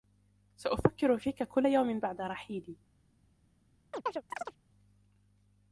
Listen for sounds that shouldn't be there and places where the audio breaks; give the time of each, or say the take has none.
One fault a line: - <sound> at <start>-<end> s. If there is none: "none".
- chirp at 3.9-4.6 s